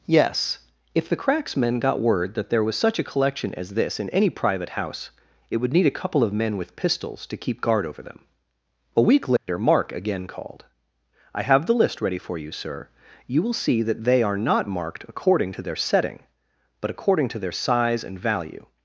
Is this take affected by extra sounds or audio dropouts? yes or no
yes